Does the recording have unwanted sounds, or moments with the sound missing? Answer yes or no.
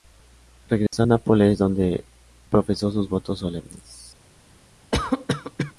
yes